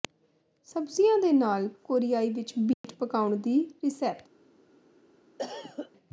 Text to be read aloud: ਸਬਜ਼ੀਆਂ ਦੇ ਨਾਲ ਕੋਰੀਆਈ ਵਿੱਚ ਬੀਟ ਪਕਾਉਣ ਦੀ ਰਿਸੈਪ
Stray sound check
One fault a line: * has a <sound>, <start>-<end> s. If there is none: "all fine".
* has a dropout, 2.7-2.8 s
* has a cough, 5.4-5.9 s